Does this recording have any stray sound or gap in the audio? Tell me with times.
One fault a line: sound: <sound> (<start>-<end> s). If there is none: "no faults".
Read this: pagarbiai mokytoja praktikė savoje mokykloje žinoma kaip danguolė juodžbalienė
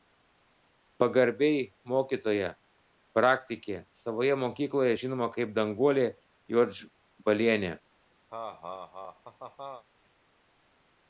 sound: laugh (8.3-9.8 s)